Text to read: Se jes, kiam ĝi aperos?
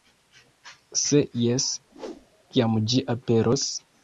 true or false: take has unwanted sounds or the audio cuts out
true